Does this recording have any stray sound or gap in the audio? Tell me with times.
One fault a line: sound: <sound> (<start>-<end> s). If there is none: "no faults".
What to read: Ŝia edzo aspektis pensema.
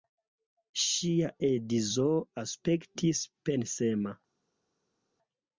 no faults